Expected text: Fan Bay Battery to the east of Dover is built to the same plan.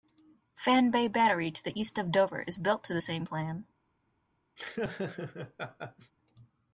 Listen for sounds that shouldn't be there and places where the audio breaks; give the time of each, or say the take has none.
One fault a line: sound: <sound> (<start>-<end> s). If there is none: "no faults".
sound: laugh (4.6-6.1 s)